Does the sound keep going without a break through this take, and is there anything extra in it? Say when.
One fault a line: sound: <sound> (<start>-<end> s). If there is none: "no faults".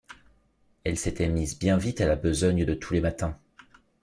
no faults